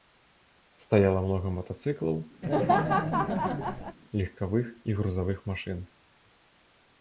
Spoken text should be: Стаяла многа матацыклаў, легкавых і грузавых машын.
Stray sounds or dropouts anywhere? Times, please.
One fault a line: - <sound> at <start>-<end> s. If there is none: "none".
- laugh at 2.4-4.0 s